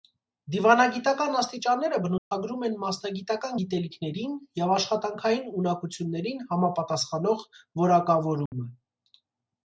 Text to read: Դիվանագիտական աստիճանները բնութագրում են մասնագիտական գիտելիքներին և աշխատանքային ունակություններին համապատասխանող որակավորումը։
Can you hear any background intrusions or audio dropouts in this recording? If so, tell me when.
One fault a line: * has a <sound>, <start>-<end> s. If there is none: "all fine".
* has a dropout, 2.2-2.3 s
* has a dropout, 8.5-8.5 s